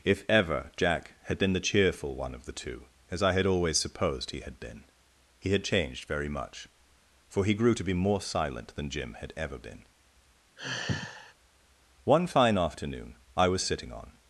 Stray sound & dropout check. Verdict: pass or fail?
fail